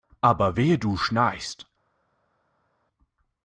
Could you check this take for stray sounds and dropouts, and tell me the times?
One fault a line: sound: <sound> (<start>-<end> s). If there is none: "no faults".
no faults